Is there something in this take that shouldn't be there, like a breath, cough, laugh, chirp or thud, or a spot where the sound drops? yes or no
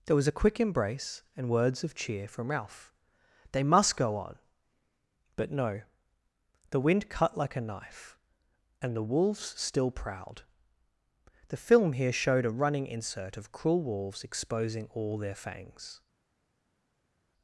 no